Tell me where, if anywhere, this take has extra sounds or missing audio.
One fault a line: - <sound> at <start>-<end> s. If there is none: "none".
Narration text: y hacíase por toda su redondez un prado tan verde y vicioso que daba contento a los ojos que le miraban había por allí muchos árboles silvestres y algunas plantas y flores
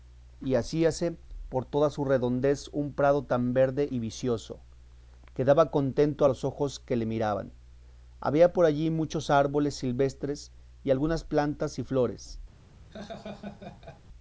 - laugh at 12.9-14.0 s